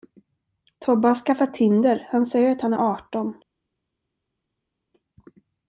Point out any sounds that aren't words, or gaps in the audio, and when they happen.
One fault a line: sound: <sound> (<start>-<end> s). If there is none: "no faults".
no faults